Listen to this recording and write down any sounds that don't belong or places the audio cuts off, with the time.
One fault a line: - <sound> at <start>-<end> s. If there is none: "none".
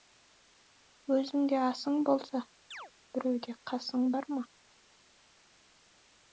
- chirp at 2.7-2.9 s